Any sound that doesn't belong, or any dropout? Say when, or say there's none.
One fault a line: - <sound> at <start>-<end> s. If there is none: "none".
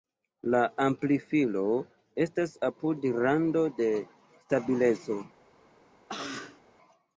- cough at 6.1-6.6 s